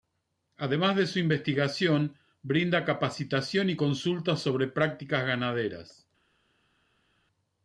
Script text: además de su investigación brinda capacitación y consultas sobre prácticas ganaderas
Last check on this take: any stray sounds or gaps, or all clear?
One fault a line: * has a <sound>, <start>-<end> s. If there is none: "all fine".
all fine